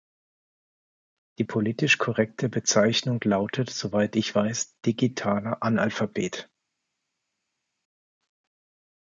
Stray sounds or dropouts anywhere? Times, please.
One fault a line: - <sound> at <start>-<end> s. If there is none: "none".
none